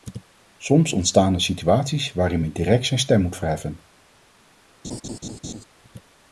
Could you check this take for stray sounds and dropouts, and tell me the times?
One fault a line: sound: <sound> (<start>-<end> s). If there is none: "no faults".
sound: laugh (4.8-5.6 s)